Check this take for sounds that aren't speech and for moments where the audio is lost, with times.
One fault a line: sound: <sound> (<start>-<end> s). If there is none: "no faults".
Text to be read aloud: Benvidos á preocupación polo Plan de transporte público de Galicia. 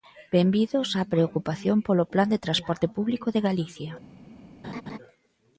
sound: laugh (4.6-5.0 s)